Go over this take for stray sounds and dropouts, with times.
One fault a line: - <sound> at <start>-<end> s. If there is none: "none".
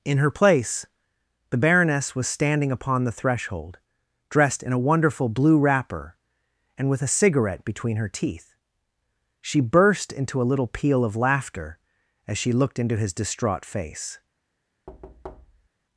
- thud at 14.9-15.7 s